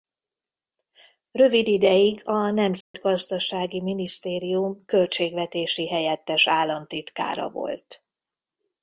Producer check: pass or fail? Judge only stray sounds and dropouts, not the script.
fail